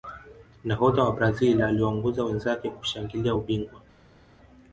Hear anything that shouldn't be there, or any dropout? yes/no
no